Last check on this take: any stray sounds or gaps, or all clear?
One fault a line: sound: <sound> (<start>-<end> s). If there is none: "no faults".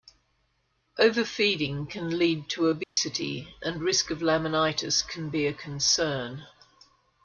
sound: dropout (2.8-3.0 s)